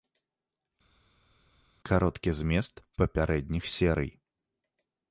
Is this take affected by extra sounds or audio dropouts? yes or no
no